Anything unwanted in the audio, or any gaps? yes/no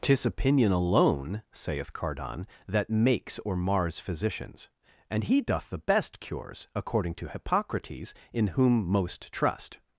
no